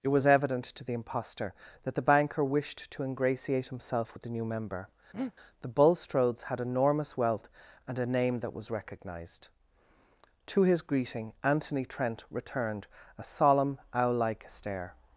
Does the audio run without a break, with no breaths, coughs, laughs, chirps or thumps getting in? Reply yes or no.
no